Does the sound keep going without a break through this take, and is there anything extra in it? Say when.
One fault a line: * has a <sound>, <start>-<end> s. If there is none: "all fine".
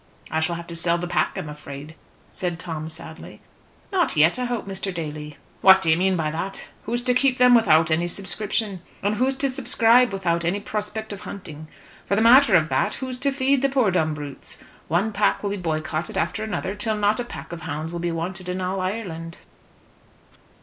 all fine